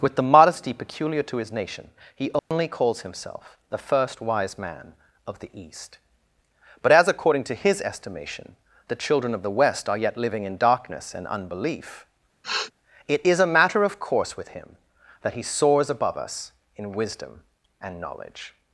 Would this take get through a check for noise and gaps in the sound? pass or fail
fail